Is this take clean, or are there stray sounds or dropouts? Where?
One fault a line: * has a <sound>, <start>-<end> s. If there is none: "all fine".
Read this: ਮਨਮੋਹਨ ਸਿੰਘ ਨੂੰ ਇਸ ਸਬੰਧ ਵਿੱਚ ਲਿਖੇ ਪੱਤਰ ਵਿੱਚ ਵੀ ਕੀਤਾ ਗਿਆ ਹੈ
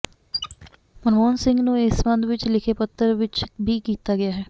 * has a squeak, 0.3-0.8 s